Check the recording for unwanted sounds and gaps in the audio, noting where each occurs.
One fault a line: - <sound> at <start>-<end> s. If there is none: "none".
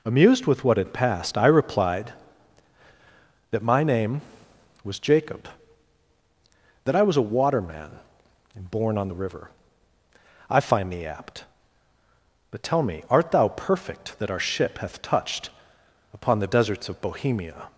none